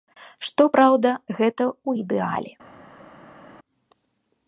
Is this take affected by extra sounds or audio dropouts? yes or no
no